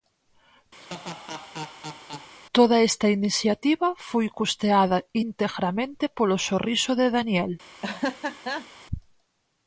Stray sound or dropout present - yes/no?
yes